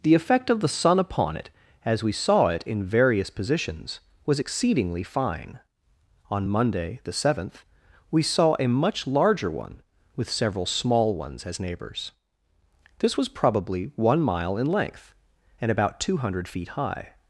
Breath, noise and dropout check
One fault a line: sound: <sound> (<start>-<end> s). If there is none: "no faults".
no faults